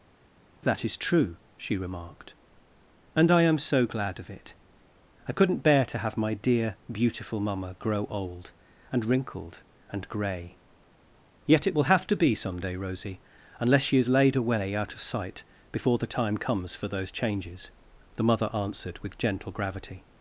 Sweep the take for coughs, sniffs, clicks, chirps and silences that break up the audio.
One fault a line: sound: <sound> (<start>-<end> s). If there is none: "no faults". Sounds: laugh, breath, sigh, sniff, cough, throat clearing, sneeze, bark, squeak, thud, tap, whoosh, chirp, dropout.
no faults